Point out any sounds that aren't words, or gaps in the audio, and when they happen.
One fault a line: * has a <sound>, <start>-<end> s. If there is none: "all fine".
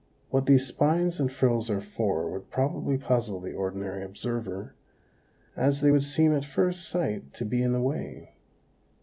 all fine